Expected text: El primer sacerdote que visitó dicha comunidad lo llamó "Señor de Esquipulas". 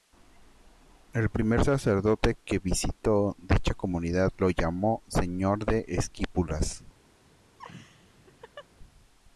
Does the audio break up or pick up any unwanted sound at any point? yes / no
yes